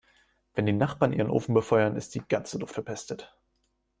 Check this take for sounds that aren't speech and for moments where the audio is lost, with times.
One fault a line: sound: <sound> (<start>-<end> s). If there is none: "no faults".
no faults